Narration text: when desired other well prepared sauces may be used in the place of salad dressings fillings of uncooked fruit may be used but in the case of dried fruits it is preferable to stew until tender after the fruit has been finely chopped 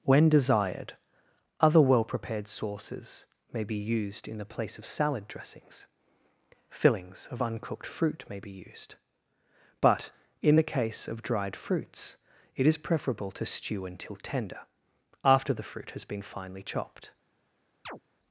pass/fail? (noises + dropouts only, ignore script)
fail